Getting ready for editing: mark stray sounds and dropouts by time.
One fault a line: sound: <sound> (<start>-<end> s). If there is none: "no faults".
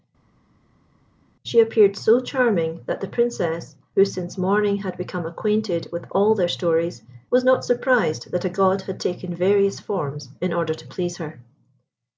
no faults